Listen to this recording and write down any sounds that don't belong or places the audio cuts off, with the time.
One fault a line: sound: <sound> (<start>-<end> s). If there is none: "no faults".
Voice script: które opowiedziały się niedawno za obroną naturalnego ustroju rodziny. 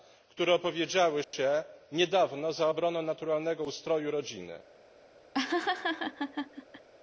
sound: dropout (1.2-1.3 s)
sound: laugh (5.3-6.9 s)